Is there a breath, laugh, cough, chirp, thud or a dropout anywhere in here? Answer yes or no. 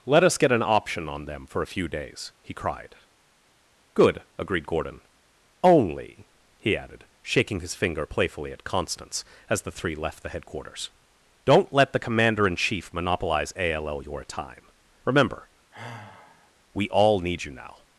yes